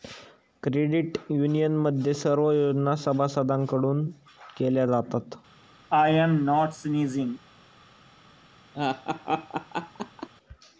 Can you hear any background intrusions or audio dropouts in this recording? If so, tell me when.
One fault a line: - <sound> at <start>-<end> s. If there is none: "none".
- sneeze at 5.9-7.4 s
- laugh at 8.7-10.3 s